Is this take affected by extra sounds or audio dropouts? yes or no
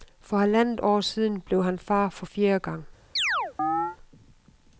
yes